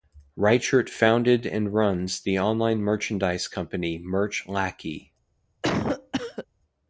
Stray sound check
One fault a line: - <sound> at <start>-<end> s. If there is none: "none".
- cough at 5.6-6.5 s